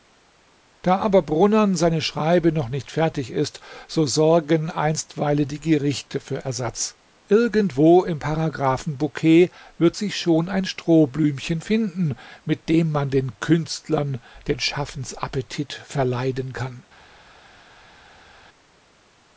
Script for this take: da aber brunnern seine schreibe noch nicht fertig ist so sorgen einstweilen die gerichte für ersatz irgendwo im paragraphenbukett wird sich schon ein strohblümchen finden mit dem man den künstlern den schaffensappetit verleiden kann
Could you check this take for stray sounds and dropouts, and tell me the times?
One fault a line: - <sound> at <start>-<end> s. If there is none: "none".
none